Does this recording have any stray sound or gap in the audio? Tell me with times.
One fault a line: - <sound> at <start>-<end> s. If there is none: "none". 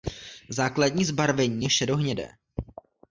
none